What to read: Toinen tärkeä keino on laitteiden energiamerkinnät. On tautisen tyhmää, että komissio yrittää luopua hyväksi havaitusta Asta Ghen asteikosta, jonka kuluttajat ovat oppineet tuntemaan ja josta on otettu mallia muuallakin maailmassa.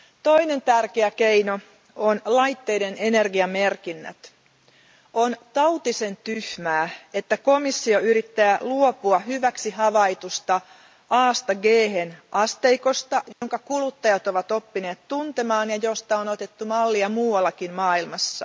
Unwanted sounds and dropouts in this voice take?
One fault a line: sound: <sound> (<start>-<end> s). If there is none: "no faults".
sound: dropout (13.3-13.4 s)